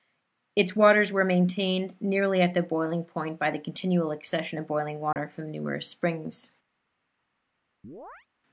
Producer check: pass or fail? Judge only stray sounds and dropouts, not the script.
fail